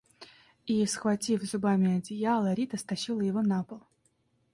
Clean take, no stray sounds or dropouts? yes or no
yes